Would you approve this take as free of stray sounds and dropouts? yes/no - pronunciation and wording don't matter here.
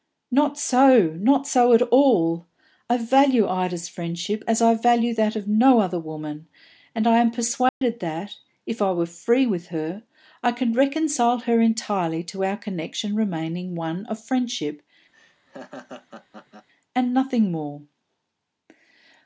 no